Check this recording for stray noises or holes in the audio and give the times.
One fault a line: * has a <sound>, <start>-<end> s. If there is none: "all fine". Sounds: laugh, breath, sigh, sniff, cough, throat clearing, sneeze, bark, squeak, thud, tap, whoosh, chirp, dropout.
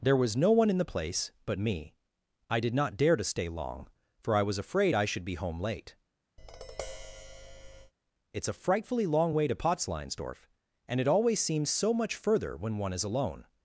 * has a tap, 6.4-7.9 s